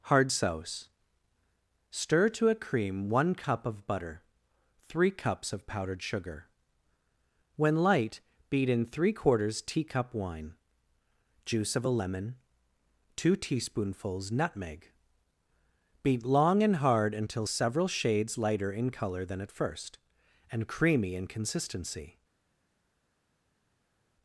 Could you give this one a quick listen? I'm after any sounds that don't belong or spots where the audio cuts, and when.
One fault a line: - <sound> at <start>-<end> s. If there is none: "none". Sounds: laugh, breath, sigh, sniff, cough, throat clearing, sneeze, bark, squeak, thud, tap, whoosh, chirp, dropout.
none